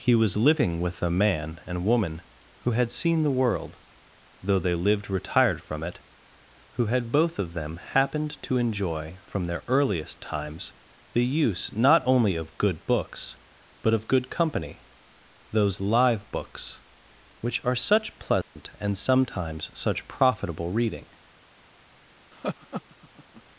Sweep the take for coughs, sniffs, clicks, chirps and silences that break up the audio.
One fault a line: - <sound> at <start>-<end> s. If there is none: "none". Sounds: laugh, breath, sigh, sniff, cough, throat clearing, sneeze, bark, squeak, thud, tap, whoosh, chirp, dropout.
- dropout at 18.4-18.6 s
- laugh at 22.3-23.4 s